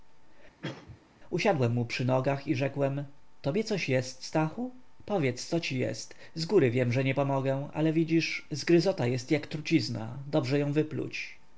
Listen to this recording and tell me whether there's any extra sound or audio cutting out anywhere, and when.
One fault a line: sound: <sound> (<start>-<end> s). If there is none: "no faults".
sound: cough (0.6-1.1 s)